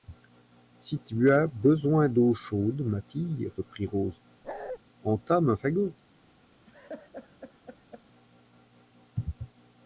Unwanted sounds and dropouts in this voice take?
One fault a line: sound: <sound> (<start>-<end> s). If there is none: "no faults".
sound: bark (4.4-4.8 s)
sound: laugh (6.7-8.0 s)